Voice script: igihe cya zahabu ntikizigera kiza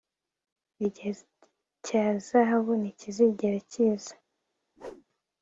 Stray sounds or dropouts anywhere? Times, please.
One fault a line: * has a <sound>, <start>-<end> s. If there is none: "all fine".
* has a whoosh, 4.8-5.0 s